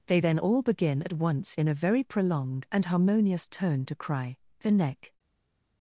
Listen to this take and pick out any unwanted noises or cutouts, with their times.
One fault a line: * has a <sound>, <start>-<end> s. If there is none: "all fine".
all fine